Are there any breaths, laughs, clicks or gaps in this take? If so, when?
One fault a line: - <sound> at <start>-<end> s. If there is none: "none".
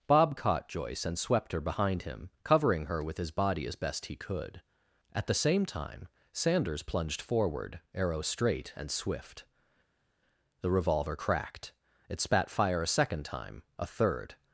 none